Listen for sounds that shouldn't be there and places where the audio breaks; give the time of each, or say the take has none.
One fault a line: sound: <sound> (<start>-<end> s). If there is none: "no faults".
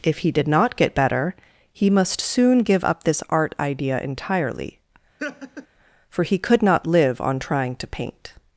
sound: laugh (5.2-5.7 s)